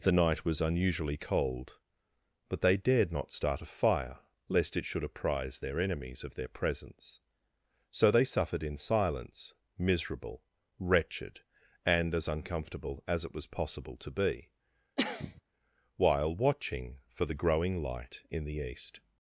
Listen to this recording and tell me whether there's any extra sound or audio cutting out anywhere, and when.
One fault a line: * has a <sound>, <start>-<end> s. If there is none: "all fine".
* has a cough, 15.0-15.4 s